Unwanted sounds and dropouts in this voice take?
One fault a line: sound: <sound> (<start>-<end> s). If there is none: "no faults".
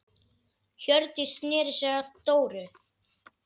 no faults